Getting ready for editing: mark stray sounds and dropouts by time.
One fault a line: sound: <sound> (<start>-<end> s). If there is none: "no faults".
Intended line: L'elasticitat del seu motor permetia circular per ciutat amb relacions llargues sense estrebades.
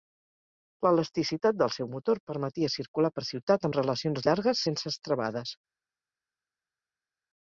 no faults